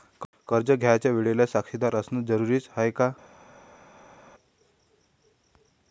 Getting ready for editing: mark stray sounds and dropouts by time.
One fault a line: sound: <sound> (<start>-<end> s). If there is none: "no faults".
no faults